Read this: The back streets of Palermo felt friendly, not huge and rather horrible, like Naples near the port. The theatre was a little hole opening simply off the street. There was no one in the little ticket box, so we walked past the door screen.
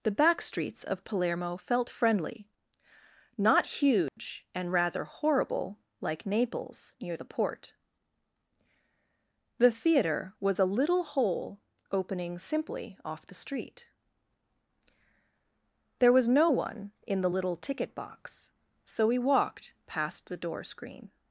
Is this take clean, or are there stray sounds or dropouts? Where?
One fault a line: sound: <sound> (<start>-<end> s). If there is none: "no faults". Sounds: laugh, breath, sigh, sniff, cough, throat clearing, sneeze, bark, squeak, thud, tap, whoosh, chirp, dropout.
sound: dropout (4.1-4.2 s)